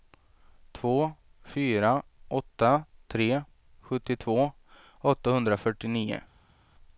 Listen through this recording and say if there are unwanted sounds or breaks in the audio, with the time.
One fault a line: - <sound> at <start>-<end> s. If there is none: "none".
none